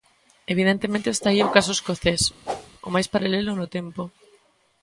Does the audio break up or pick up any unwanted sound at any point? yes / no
yes